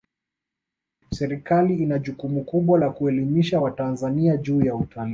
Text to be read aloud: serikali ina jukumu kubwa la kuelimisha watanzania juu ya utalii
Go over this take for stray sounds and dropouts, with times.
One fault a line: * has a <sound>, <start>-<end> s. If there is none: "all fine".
all fine